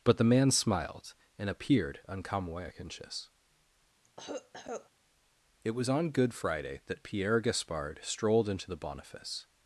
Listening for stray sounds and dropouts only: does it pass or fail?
fail